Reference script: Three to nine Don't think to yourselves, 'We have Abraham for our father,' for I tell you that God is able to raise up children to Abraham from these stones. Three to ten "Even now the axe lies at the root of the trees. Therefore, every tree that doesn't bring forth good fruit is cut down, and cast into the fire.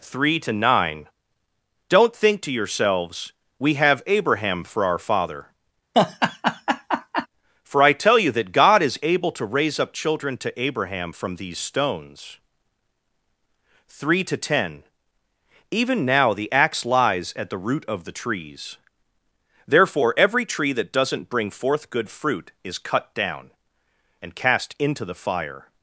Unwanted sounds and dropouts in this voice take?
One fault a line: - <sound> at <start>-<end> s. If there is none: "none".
- laugh at 5.9-7.3 s